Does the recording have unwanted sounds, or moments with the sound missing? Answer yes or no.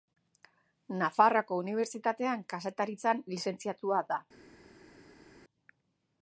no